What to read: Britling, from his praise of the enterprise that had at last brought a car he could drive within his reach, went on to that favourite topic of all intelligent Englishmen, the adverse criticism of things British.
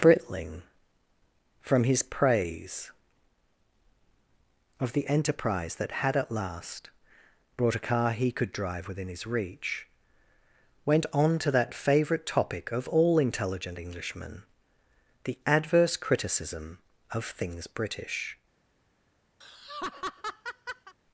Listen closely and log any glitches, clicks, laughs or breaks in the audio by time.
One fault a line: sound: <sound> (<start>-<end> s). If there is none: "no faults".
sound: laugh (19.4-20.9 s)